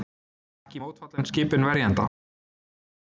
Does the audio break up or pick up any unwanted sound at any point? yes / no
no